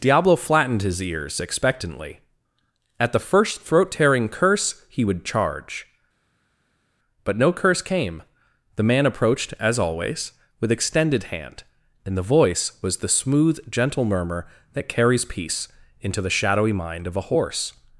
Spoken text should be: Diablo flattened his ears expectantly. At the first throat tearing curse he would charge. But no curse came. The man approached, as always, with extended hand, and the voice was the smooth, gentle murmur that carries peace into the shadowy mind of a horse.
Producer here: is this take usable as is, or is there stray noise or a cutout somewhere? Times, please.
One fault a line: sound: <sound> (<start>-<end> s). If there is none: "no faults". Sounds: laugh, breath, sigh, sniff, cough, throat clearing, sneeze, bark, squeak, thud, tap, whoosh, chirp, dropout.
no faults